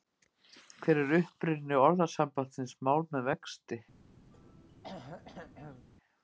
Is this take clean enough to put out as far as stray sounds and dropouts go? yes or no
no